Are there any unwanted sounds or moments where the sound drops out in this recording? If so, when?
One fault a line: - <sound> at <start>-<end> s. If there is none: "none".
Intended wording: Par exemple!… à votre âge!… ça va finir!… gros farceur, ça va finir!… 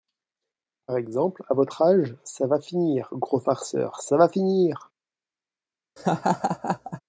- laugh at 6.0-7.0 s